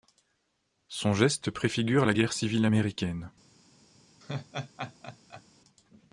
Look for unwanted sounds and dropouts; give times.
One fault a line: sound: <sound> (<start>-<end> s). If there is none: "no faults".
sound: laugh (4.2-5.4 s)